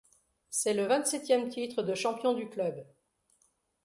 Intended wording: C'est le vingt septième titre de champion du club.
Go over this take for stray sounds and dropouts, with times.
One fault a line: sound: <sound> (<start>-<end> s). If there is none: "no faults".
no faults